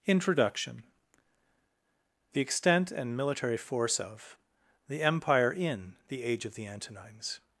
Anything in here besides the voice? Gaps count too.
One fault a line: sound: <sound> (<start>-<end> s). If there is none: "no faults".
no faults